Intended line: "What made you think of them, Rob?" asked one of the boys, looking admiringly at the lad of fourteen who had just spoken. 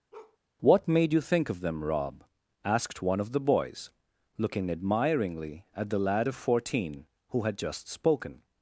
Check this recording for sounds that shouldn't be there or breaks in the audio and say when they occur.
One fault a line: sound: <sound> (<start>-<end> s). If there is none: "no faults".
sound: bark (0.1-0.4 s)